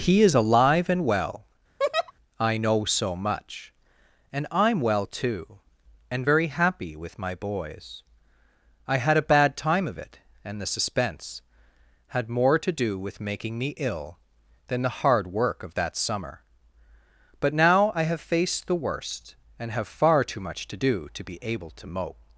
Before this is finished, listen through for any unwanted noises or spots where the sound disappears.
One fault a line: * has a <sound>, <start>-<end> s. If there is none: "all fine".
* has a laugh, 1.8-2.1 s